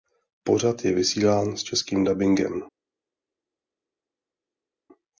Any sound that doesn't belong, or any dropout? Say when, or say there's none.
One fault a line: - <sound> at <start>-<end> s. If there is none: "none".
none